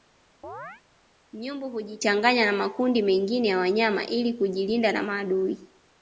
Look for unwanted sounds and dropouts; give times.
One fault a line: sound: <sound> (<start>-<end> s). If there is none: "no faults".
sound: chirp (0.4-0.8 s)